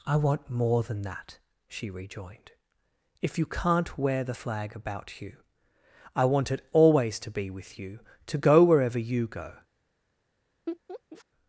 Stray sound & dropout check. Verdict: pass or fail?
fail